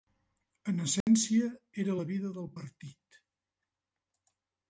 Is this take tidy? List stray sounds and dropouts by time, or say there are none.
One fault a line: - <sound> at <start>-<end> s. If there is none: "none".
- dropout at 1.0-1.1 s